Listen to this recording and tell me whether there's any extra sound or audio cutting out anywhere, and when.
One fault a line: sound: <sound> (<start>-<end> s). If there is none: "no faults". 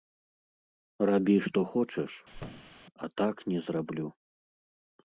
sound: thud (2.3-2.8 s)